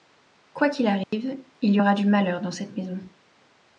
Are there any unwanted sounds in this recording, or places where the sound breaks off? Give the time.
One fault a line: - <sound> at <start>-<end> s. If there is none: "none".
- dropout at 1.0-1.1 s